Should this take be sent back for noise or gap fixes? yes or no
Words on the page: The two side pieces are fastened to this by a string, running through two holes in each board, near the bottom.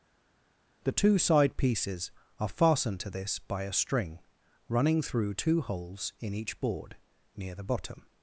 no